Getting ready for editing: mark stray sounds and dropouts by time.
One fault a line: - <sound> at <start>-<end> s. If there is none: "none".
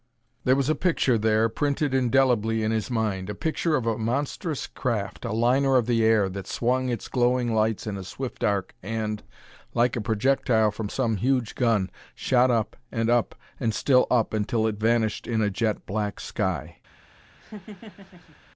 - laugh at 17.4-18.4 s